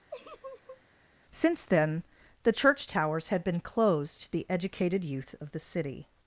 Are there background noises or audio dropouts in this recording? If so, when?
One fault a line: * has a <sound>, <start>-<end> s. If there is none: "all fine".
* has a laugh, 0.1-0.8 s